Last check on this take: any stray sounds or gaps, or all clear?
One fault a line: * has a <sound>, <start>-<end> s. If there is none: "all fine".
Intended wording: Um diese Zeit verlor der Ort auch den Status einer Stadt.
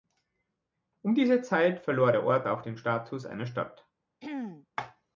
* has a throat clearing, 4.2-4.7 s